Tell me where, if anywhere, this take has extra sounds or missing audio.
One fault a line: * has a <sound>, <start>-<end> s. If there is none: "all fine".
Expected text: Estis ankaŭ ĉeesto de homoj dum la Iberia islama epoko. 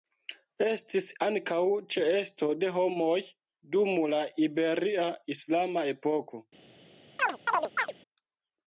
* has a chirp, 7.2-7.9 s